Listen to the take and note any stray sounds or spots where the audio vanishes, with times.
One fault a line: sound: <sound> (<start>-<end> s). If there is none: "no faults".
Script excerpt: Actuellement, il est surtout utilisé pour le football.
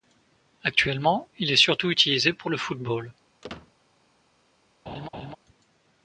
sound: squeak (3.4-3.7 s)
sound: laugh (4.9-5.4 s)